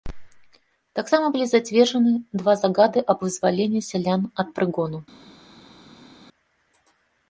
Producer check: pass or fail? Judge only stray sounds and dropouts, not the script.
pass